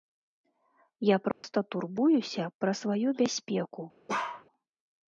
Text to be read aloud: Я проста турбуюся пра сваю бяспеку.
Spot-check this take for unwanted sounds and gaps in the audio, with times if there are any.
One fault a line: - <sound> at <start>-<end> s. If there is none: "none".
- dropout at 1.3-1.4 s
- bark at 4.1-4.4 s